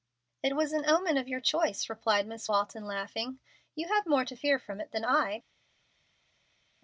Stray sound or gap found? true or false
false